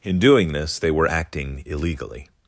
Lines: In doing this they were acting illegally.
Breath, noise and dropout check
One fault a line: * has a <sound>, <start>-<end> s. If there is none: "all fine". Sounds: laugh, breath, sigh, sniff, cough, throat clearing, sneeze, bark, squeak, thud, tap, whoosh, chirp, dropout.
all fine